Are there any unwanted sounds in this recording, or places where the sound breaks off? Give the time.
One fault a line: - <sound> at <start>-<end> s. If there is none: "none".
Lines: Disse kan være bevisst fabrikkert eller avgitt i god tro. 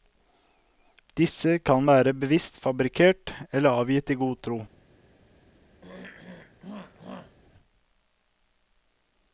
- throat clearing at 5.8-7.4 s